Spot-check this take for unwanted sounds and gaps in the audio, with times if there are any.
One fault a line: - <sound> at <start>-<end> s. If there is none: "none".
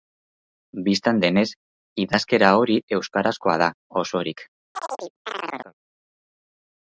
- chirp at 4.8-5.7 s